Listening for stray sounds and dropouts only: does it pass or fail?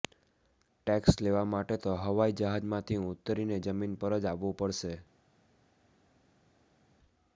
pass